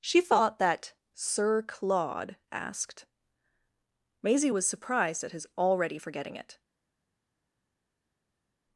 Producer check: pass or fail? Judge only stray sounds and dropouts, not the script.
pass